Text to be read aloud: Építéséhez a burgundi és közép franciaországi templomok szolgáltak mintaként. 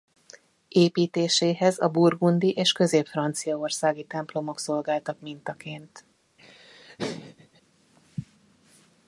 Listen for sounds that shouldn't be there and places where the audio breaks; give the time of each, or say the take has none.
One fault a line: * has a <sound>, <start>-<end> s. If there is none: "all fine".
* has a laugh, 6.4-7.6 s